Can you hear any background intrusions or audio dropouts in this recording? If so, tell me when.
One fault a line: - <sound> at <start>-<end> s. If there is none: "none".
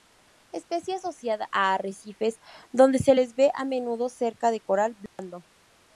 - dropout at 5.1-5.2 s